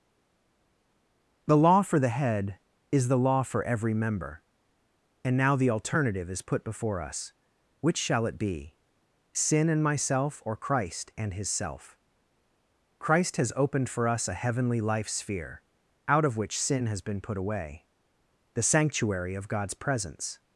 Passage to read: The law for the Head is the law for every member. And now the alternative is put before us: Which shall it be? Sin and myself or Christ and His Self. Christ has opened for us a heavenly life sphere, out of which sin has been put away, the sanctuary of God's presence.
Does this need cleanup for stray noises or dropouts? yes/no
no